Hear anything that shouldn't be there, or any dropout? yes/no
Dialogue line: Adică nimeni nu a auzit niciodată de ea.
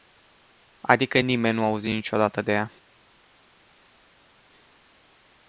no